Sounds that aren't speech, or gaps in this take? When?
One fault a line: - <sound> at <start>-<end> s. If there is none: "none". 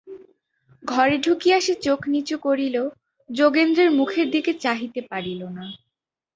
none